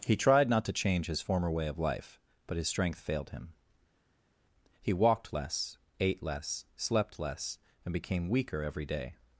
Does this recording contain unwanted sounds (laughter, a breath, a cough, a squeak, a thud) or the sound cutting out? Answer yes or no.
no